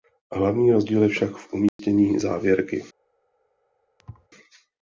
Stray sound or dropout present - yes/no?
yes